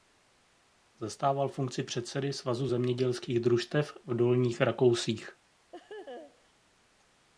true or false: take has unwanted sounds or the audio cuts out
true